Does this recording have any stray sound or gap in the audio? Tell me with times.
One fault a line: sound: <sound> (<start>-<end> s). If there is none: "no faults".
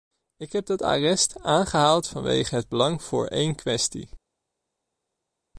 no faults